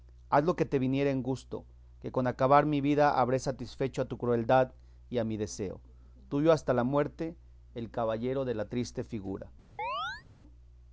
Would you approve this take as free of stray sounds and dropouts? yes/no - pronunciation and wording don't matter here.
no